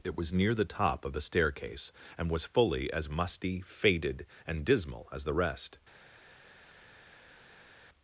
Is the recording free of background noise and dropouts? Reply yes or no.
yes